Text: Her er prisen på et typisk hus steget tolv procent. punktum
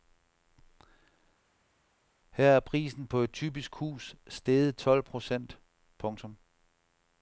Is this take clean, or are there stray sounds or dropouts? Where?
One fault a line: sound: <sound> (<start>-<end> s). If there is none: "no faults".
no faults